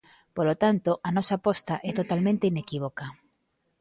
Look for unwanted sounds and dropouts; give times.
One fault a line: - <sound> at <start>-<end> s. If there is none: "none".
none